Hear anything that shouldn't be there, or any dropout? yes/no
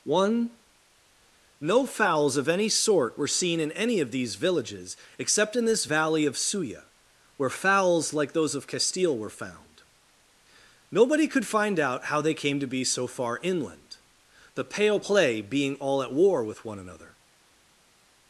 no